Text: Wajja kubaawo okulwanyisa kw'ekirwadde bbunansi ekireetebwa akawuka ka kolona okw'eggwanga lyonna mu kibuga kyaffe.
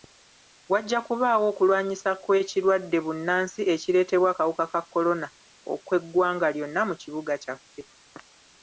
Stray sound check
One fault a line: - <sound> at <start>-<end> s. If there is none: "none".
none